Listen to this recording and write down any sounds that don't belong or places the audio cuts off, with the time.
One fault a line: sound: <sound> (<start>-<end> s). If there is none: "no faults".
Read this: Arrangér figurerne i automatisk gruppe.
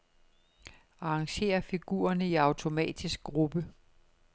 no faults